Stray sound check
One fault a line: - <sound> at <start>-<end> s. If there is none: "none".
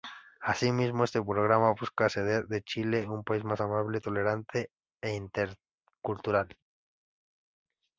none